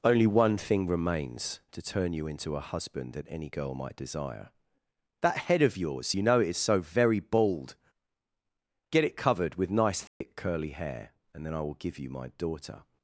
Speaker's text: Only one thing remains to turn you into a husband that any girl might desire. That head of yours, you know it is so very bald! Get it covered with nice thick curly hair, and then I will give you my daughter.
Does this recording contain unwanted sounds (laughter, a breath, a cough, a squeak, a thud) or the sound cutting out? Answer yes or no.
yes